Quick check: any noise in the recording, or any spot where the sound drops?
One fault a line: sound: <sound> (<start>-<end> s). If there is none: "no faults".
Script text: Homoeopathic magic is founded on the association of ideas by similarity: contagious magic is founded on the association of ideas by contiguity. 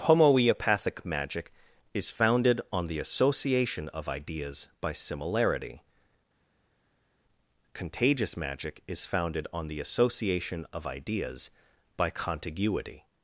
no faults